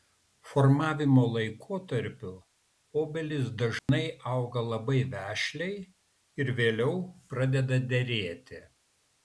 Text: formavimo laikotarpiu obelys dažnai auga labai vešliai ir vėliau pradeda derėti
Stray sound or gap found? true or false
true